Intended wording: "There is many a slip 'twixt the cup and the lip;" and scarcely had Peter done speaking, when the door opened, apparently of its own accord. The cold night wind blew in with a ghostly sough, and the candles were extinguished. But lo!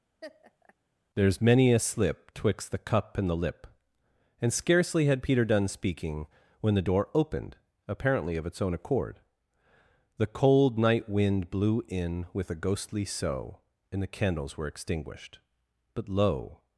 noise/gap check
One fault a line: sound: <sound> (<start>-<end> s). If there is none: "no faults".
sound: laugh (0.2-0.7 s)